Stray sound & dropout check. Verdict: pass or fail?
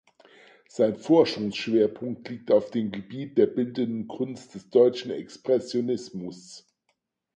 pass